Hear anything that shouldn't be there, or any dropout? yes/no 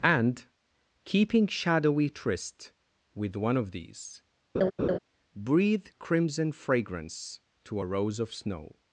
yes